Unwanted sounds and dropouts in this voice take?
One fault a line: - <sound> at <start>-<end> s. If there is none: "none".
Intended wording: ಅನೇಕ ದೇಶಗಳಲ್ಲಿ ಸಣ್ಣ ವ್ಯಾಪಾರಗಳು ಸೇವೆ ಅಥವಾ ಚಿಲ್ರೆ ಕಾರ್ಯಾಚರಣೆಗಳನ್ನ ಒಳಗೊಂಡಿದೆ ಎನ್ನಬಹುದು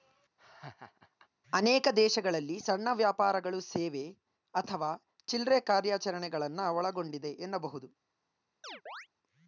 - laugh at 0.4-1.3 s
- chirp at 8.6-9.1 s